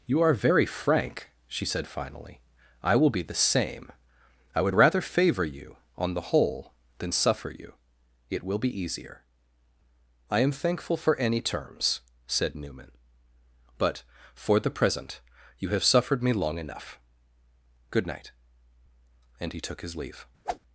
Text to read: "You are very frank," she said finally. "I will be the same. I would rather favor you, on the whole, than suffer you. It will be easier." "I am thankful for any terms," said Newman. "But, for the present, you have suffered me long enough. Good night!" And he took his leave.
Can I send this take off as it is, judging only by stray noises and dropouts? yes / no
no